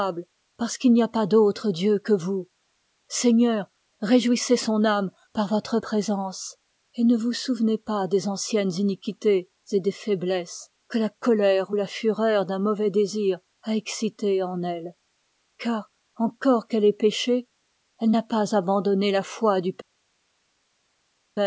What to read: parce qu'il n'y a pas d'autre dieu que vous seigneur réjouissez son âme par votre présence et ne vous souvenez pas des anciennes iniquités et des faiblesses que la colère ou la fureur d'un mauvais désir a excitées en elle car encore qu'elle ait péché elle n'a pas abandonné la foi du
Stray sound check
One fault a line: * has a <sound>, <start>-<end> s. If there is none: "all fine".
all fine